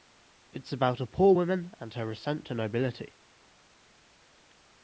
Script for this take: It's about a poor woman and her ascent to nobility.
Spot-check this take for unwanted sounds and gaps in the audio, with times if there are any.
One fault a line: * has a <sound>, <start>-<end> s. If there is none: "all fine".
all fine